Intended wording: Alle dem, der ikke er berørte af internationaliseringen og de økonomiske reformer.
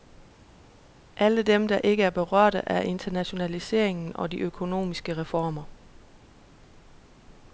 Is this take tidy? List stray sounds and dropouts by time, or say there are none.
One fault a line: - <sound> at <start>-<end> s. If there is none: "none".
none